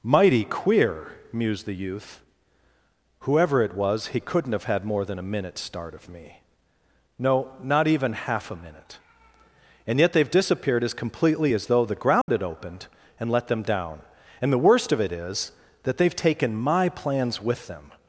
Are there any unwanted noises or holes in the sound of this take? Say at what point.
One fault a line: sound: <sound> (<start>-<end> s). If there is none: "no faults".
sound: dropout (12.2-12.3 s)